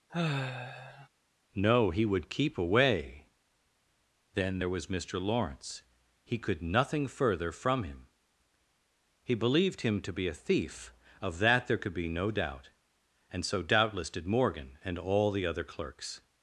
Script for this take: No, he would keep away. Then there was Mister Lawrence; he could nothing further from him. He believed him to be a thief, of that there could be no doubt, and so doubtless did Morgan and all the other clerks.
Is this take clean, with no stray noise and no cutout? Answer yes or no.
no